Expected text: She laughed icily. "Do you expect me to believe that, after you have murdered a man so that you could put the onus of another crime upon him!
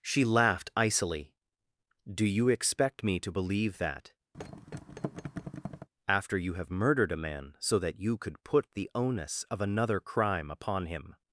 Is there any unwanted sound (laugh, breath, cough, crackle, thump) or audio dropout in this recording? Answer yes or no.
yes